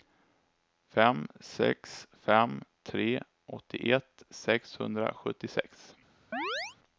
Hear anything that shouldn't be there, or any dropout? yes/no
yes